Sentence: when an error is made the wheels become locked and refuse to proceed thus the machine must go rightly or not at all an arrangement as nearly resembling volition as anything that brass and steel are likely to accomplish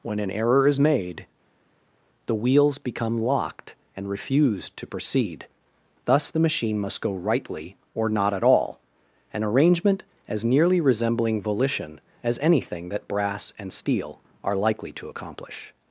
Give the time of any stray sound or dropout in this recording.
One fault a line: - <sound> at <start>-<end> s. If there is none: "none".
none